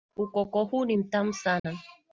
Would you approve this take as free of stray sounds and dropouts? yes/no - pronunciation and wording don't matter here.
no